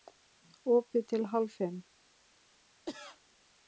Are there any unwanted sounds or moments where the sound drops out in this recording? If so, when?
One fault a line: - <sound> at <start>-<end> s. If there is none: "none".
- cough at 2.9-3.2 s